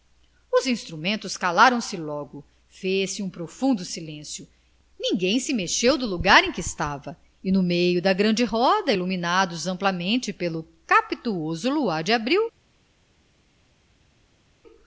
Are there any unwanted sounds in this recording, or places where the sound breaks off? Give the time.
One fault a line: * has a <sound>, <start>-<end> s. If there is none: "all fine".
all fine